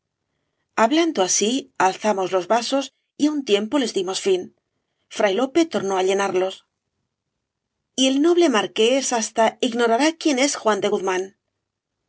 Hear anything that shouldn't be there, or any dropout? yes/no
no